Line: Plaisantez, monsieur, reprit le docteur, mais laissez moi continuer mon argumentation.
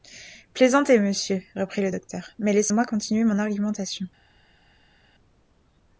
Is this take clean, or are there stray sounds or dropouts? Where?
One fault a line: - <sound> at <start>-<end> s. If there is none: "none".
none